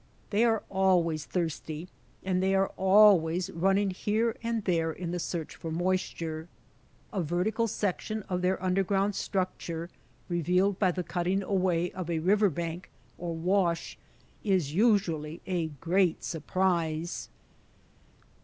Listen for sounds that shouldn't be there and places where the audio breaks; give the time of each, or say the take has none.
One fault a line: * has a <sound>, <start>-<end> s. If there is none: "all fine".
all fine